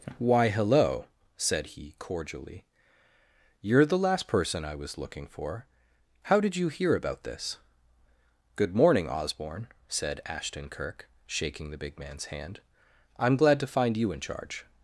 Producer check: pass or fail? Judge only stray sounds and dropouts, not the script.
pass